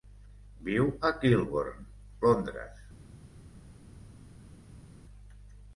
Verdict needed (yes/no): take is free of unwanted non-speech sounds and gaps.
yes